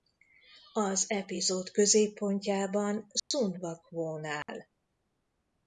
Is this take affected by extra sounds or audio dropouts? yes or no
yes